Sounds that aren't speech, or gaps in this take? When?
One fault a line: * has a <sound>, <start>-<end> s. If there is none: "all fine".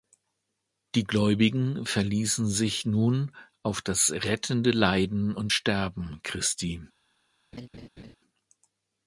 * has a laugh, 7.5-8.2 s